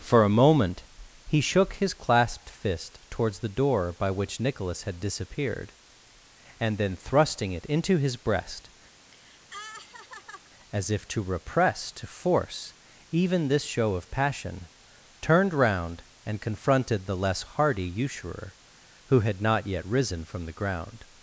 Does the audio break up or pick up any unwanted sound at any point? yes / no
yes